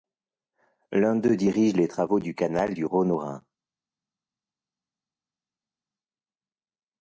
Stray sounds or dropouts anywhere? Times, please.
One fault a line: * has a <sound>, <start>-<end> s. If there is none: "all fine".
all fine